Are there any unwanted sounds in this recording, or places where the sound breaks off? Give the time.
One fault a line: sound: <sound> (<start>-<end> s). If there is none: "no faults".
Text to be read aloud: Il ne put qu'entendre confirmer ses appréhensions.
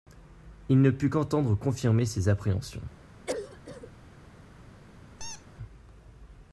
sound: cough (3.3-3.9 s)
sound: squeak (5.2-5.5 s)